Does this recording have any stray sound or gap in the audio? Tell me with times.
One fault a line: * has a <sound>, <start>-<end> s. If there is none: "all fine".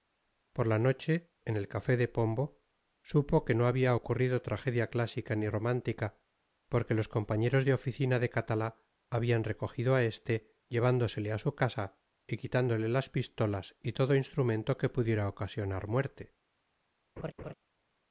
* has a laugh, 17.2-17.5 s